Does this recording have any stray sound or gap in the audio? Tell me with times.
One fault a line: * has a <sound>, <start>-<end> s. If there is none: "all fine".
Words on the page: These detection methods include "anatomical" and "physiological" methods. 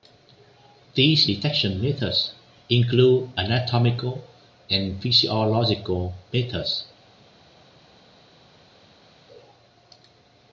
all fine